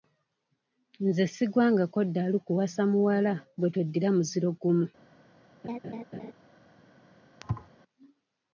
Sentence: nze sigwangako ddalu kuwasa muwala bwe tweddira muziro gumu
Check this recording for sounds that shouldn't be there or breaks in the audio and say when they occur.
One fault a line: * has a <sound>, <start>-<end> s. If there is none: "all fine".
* has a laugh, 5.6-6.3 s
* has a thud, 7.4-7.7 s